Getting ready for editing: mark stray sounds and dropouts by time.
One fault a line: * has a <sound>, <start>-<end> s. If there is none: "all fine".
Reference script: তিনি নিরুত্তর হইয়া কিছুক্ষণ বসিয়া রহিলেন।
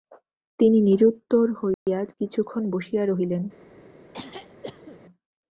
* has a dropout, 1.7-1.9 s
* has a throat clearing, 4.1-5.0 s